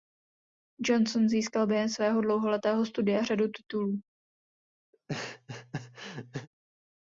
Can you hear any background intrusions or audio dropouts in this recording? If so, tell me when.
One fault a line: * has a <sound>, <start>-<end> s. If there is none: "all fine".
* has a laugh, 4.9-6.5 s